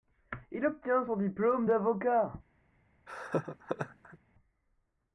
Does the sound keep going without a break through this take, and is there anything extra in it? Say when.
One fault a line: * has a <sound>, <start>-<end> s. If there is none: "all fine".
* has a laugh, 3.1-4.2 s